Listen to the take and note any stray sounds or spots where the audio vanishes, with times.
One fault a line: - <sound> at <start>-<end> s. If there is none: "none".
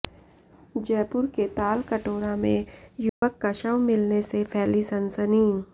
- dropout at 3.1-3.2 s